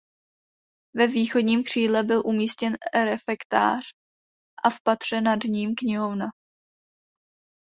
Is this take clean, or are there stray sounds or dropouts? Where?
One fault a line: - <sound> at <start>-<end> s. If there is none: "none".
none